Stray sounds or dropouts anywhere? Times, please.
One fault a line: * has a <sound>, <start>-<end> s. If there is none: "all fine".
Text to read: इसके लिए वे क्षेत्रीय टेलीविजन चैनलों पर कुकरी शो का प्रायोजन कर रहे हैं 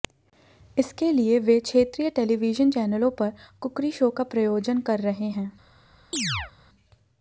* has a chirp, 6.1-6.5 s